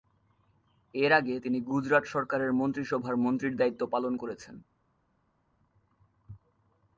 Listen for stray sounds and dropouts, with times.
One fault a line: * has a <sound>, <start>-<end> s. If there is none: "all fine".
all fine